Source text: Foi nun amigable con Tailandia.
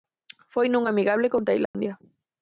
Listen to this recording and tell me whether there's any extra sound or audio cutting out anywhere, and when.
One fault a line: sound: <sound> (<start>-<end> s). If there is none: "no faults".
sound: dropout (1.7-1.7 s)